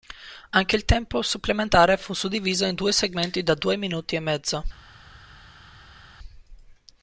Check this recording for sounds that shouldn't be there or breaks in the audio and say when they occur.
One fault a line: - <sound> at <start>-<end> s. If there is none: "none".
none